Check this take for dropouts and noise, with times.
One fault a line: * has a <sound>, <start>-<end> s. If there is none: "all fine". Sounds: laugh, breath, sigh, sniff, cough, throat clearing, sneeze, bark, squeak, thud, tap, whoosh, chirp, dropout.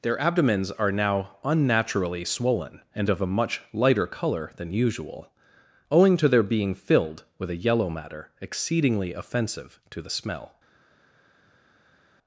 all fine